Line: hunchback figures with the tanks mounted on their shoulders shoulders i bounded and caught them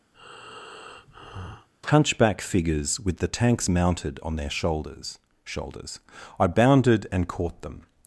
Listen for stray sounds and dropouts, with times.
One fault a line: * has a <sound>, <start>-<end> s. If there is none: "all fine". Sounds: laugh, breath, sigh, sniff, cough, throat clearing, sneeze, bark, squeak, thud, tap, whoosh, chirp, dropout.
* has a breath, 0.1-1.7 s